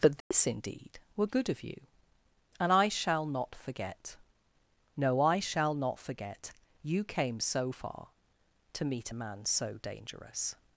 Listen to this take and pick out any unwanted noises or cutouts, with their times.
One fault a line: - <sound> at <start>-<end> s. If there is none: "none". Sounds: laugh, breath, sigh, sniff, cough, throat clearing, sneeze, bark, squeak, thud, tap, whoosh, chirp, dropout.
- dropout at 0.2-0.3 s